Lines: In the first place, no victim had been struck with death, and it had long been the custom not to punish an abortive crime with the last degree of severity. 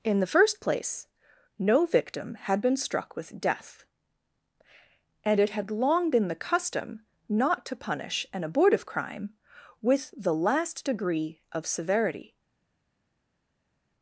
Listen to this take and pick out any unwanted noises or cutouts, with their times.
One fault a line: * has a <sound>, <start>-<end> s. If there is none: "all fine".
all fine